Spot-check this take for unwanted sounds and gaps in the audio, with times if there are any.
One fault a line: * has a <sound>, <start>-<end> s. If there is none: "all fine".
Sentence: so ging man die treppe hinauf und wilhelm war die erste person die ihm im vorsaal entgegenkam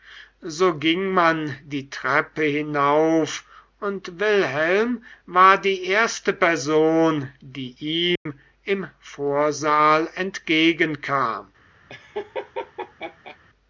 * has a dropout, 8.2-8.3 s
* has a laugh, 11.9-13.4 s